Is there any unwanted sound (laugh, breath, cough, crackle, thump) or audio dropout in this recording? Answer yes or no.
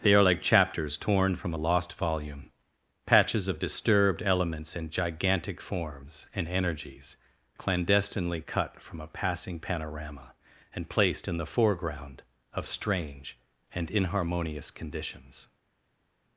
no